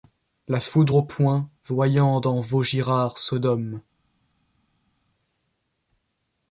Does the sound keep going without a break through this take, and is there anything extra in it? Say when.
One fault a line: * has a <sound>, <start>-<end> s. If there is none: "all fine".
all fine